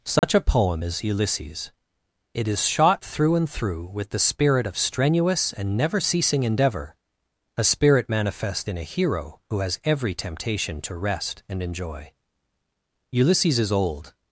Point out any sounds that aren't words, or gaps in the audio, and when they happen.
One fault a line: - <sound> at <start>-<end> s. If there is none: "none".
- dropout at 0.2-0.2 s